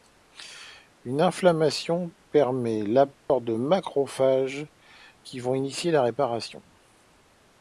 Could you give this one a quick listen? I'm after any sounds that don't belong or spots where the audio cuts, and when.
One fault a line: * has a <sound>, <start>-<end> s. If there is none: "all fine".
* has a dropout, 3.2-3.3 s